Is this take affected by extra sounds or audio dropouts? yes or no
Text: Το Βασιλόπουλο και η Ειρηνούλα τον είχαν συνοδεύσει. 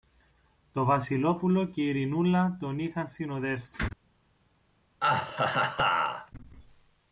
yes